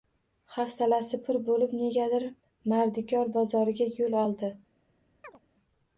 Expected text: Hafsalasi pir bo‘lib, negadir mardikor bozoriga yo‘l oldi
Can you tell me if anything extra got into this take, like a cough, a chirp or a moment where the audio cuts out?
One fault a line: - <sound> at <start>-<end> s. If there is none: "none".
- chirp at 5.2-5.4 s